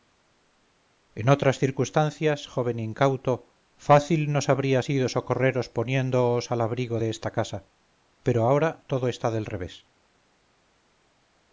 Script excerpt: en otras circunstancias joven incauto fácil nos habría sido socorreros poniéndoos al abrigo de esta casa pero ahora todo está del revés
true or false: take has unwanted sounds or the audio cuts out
false